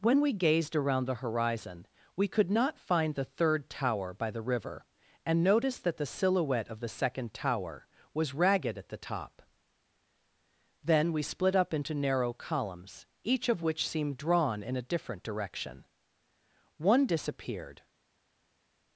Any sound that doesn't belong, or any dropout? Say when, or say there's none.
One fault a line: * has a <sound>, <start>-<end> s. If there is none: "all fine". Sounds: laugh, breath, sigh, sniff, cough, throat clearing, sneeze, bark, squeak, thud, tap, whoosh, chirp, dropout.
all fine